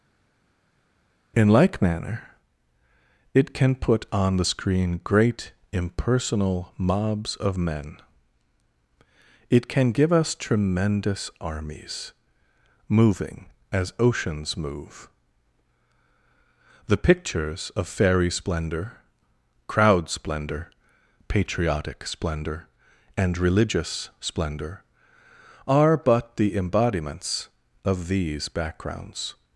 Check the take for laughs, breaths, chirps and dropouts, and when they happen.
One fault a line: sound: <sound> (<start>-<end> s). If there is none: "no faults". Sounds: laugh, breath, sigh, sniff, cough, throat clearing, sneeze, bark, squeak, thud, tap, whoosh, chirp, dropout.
no faults